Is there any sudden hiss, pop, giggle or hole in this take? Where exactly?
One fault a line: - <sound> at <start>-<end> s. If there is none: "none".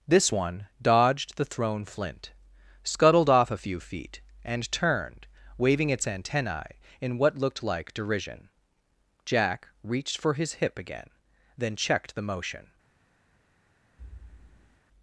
- thud at 14.0-14.8 s